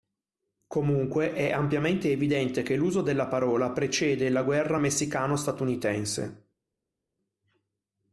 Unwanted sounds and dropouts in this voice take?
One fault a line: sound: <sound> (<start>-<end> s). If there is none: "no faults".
no faults